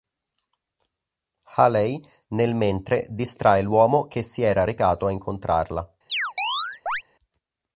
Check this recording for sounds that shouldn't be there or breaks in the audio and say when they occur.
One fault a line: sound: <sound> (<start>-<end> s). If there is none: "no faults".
sound: chirp (6.1-7.0 s)